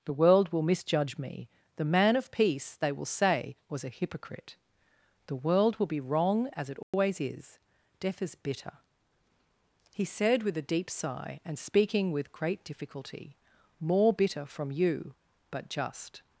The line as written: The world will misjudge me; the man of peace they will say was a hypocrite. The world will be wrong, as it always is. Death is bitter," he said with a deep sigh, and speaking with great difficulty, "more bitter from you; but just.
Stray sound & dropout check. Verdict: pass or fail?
fail